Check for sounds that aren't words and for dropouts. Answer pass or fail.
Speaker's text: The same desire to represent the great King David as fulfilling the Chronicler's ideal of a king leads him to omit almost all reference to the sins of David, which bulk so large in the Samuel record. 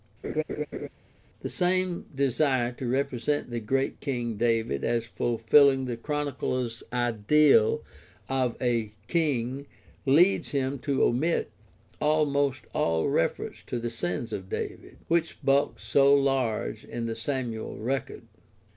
fail